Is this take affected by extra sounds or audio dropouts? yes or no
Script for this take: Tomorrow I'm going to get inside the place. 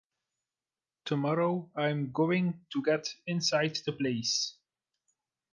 no